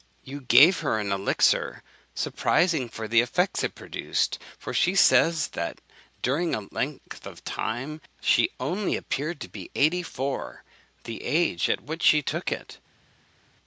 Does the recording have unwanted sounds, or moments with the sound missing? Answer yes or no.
no